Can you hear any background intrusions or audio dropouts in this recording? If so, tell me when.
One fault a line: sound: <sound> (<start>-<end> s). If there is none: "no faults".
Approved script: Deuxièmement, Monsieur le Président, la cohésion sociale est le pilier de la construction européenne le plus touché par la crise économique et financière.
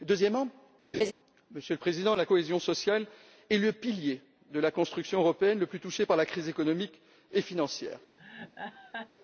sound: laugh (0.9-1.1 s)
sound: laugh (8.2-9.1 s)